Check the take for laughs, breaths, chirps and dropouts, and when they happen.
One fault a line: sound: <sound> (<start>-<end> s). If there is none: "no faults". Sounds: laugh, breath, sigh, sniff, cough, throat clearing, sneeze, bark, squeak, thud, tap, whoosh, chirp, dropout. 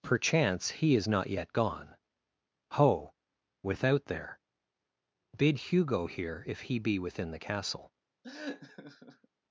sound: laugh (8.2-9.3 s)